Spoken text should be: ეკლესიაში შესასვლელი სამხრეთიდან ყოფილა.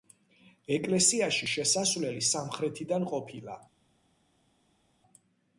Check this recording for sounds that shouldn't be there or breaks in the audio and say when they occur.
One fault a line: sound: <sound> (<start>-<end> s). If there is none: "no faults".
no faults